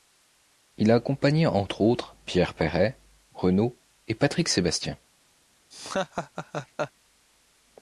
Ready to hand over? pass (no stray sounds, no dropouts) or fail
fail